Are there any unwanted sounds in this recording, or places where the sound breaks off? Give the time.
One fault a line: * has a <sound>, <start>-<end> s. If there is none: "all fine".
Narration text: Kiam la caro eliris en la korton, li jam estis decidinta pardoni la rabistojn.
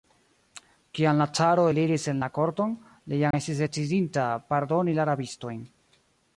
* has a dropout, 3.3-3.3 s